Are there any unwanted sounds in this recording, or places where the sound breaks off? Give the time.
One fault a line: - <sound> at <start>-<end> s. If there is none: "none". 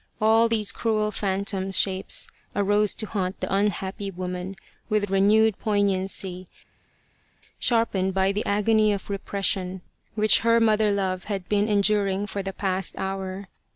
none